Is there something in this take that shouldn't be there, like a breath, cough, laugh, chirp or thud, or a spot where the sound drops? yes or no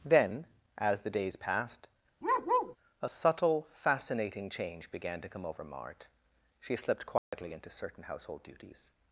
yes